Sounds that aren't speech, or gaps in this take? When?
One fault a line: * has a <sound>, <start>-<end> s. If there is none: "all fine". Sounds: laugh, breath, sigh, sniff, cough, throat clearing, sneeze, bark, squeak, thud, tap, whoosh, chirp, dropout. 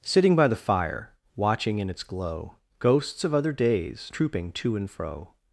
all fine